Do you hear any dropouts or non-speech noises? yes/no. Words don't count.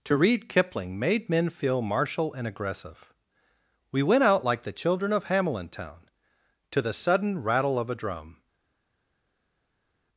no